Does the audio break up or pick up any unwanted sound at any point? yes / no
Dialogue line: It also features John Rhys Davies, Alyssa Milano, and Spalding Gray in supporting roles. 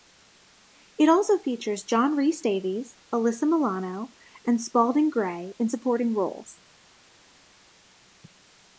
no